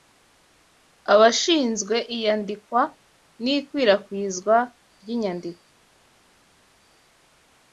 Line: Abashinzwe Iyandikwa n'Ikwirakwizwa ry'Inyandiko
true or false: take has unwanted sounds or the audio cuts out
false